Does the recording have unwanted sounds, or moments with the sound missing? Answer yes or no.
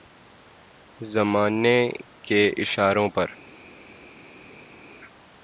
no